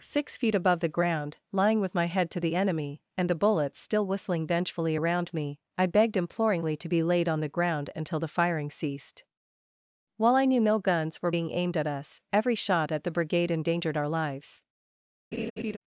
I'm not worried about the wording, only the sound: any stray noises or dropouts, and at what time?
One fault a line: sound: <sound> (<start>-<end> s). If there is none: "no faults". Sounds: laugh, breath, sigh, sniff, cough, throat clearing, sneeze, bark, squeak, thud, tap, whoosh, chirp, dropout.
sound: laugh (15.3-15.8 s)